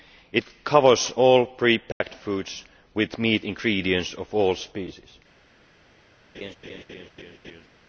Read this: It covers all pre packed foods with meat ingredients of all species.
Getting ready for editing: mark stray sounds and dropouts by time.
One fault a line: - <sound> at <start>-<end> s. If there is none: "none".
- dropout at 1.9-2.0 s
- laugh at 6.3-7.7 s